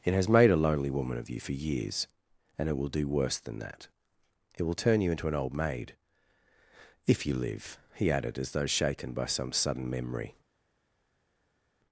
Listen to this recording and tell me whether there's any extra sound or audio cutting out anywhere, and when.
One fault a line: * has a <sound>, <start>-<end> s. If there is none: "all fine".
all fine